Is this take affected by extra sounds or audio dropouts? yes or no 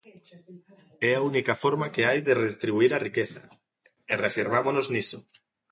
no